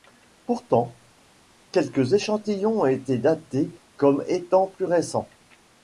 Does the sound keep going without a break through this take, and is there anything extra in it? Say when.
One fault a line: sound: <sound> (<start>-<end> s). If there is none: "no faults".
no faults